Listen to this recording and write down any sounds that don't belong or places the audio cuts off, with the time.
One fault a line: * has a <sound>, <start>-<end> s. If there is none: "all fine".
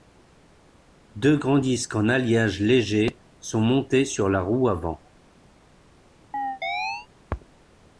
* has a chirp, 6.3-7.1 s